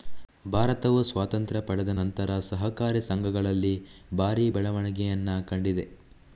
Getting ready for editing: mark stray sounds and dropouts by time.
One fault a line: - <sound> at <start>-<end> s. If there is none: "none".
none